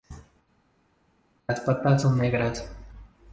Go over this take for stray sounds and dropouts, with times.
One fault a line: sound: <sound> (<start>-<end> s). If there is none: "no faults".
no faults